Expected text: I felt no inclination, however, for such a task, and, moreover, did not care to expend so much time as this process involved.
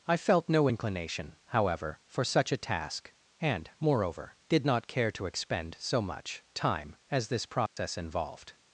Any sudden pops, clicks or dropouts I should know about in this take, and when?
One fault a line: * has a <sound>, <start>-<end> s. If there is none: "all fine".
* has a dropout, 7.7-7.8 s